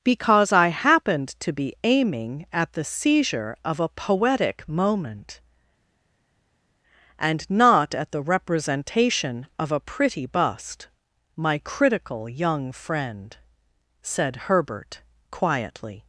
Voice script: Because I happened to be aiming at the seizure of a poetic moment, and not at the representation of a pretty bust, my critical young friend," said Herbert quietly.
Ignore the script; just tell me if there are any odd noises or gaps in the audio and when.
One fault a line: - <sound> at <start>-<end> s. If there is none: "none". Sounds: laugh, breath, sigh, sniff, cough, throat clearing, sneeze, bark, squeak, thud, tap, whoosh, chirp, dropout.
none